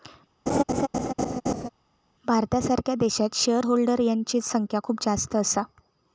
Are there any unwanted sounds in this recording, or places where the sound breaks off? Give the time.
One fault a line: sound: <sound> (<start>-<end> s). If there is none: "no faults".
sound: laugh (0.5-1.7 s)